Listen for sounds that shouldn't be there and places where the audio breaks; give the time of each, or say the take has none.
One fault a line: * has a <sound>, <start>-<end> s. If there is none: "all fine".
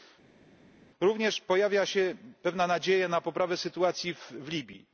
all fine